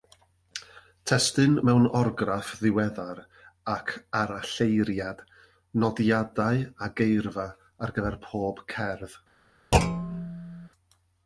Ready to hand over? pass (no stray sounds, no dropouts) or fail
fail